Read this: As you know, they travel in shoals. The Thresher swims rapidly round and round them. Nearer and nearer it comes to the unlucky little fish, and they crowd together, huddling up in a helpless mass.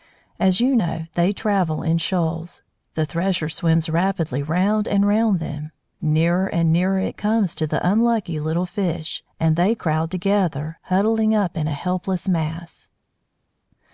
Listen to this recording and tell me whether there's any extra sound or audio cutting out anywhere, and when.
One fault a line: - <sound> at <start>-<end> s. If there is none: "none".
none